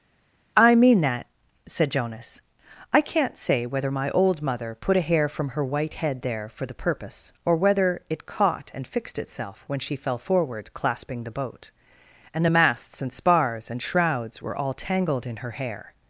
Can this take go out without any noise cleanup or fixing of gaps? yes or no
yes